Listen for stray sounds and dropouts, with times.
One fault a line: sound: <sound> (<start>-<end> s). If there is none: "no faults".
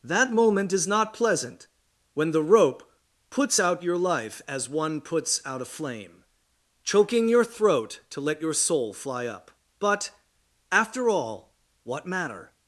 no faults